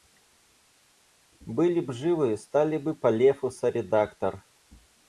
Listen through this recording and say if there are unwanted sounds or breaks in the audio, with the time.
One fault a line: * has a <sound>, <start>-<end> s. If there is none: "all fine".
all fine